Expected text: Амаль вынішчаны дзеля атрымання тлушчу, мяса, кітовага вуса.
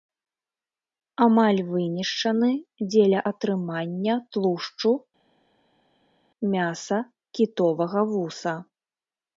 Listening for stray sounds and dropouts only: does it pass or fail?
pass